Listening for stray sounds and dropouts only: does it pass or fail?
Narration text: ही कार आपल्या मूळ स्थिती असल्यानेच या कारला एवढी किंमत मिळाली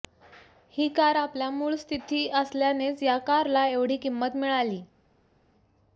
pass